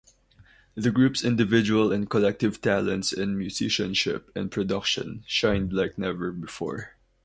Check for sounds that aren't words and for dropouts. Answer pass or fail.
pass